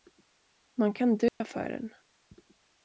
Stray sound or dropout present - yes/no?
yes